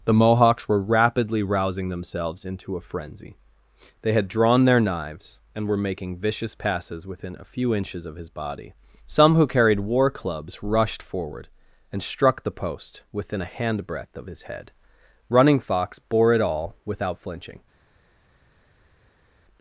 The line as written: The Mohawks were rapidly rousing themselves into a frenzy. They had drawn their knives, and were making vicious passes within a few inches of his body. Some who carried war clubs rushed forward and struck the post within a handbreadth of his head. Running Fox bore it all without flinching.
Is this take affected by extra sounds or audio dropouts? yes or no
no